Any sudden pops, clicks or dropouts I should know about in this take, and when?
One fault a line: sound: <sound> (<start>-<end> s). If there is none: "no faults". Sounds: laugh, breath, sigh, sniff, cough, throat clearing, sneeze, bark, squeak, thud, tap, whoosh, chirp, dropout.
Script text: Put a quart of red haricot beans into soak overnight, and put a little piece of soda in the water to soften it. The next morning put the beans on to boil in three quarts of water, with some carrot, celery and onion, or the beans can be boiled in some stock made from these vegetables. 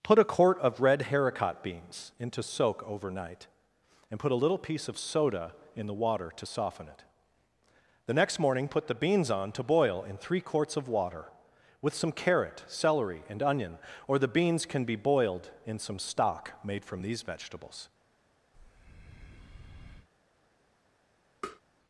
sound: breath (18.5-20.1 s)
sound: tap (21.4-21.6 s)